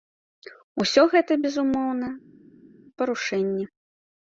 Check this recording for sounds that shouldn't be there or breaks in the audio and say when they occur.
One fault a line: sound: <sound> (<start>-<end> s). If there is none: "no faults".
no faults